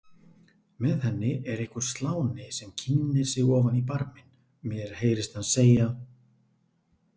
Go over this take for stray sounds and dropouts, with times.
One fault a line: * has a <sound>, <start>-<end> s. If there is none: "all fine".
all fine